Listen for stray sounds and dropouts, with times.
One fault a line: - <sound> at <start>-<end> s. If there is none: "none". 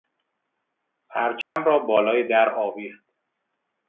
- dropout at 1.4-1.6 s